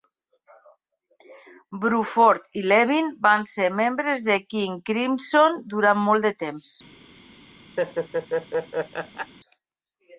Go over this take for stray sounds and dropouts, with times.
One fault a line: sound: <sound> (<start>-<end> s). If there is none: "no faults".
sound: laugh (7.8-9.3 s)